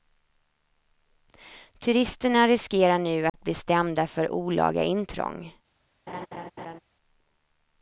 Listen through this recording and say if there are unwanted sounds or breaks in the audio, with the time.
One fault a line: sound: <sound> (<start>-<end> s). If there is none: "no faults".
sound: dropout (3.3-3.3 s)
sound: laugh (6.1-6.8 s)